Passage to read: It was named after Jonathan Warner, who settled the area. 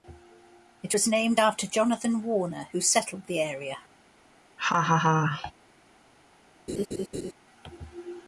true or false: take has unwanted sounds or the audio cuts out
true